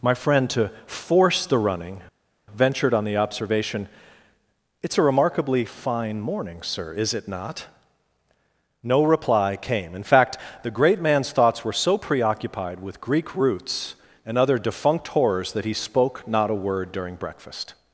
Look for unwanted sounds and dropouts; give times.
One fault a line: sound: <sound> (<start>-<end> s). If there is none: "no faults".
no faults